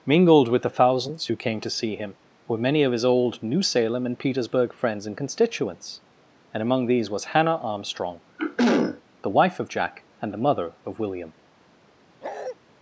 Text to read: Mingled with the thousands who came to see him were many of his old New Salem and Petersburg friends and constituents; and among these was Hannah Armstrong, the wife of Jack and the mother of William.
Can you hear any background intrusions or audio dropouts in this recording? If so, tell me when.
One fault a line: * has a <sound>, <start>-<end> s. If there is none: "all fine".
* has a throat clearing, 8.4-9.0 s
* has a bark, 12.2-12.6 s